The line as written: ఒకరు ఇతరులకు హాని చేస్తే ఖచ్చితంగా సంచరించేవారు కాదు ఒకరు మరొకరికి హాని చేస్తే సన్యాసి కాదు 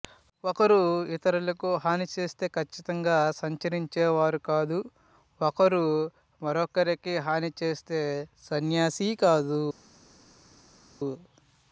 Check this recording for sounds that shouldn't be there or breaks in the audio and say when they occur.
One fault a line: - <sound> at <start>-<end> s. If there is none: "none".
none